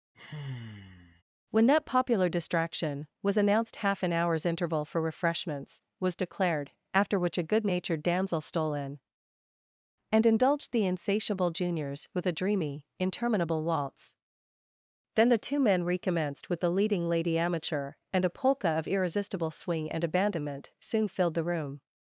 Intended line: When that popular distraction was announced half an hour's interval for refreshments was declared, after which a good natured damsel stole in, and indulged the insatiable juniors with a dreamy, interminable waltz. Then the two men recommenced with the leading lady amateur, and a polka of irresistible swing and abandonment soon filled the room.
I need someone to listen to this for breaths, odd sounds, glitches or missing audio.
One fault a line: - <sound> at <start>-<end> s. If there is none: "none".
- sigh at 0.1-1.2 s